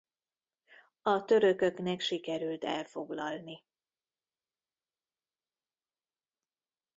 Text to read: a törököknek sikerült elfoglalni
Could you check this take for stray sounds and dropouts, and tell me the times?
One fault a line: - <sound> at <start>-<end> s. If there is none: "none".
none